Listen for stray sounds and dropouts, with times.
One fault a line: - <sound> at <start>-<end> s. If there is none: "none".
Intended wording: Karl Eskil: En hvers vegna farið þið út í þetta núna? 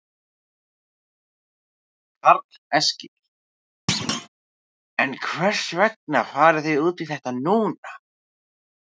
- thud at 3.9-4.3 s